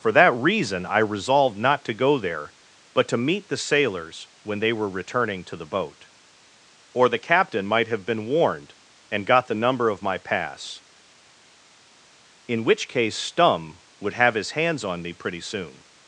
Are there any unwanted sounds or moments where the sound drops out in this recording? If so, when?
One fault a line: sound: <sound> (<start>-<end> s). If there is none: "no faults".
no faults